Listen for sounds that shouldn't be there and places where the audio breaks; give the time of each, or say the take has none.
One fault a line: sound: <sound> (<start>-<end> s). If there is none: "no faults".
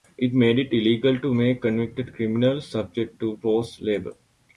no faults